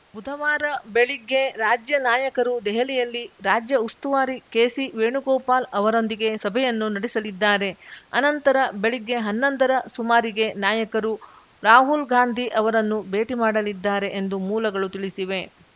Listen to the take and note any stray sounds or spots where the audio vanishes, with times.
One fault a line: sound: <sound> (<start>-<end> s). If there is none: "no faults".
no faults